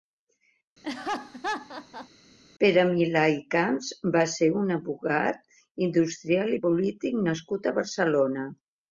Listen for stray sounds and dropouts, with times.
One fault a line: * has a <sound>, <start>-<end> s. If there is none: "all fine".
* has a laugh, 0.8-2.1 s